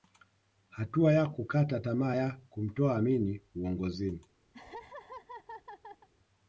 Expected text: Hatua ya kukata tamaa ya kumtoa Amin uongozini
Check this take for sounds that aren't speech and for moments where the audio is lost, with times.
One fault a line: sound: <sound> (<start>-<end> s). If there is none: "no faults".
sound: laugh (4.5-6.1 s)